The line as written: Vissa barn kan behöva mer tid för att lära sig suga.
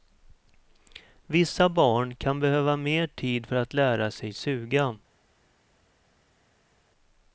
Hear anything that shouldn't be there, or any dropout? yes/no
no